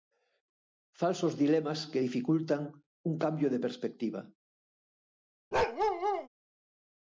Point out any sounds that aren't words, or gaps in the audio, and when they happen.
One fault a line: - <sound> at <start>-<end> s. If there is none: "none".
- bark at 5.5-6.3 s